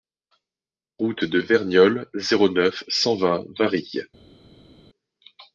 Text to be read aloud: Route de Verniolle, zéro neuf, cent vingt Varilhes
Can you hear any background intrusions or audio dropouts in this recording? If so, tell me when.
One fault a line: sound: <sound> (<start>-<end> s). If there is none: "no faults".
no faults